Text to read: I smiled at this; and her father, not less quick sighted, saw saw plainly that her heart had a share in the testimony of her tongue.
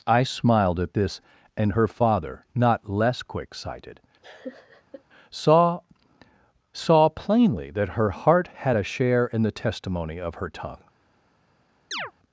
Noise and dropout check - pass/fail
fail